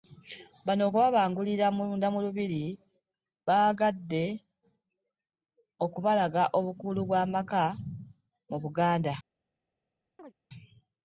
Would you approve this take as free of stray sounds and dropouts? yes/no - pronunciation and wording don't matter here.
no